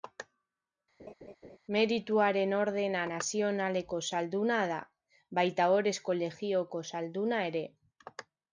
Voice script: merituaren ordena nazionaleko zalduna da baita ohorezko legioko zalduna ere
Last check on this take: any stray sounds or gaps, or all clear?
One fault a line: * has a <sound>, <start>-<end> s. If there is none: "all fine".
* has a laugh, 1.0-1.6 s